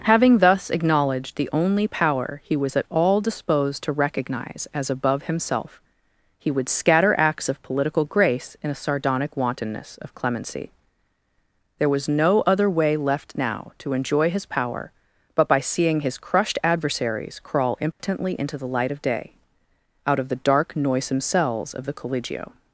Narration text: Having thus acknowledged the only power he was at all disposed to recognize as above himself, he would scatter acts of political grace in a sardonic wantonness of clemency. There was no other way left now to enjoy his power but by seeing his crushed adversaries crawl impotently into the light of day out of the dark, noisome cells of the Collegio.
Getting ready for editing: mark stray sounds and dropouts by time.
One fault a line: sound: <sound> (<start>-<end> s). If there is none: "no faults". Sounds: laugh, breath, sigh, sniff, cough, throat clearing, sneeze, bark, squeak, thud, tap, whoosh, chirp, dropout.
sound: dropout (17.9-18.0 s)